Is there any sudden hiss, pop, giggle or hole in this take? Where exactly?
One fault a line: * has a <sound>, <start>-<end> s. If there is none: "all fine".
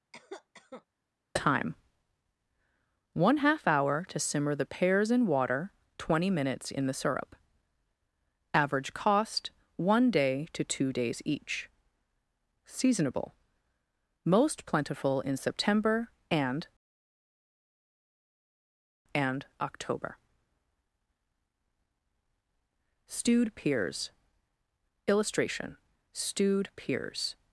* has a cough, 0.1-0.9 s